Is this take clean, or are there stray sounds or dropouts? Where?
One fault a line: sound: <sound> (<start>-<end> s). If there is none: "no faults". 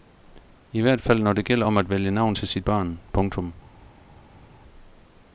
no faults